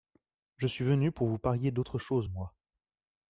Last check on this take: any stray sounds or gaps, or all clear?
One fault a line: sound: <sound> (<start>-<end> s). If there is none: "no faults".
no faults